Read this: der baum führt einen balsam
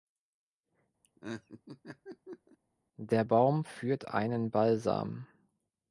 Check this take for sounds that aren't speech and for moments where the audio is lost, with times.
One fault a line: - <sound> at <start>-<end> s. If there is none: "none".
- laugh at 1.0-2.6 s